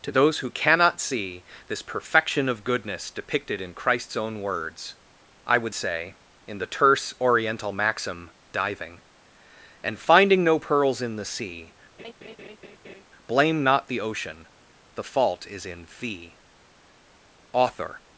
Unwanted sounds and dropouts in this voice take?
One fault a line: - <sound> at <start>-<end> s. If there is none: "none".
- laugh at 12.0-13.0 s